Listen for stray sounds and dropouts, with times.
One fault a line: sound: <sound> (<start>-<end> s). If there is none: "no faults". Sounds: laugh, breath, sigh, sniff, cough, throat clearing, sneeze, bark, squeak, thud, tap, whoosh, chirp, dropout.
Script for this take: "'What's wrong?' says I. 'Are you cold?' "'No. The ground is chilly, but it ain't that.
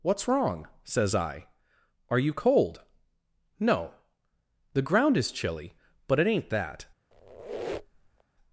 sound: squeak (7.1-8.2 s)